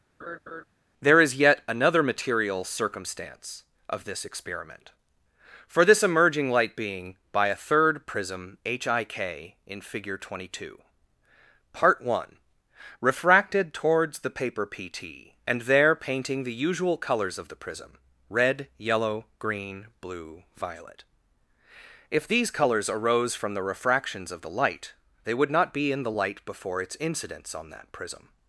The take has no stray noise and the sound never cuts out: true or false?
false